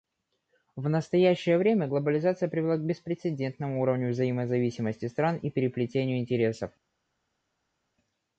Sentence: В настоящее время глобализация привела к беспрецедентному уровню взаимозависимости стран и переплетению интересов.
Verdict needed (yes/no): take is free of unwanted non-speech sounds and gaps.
yes